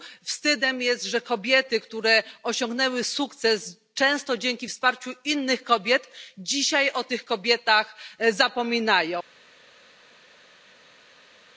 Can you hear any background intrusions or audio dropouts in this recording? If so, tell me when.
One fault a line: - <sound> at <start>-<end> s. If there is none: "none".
none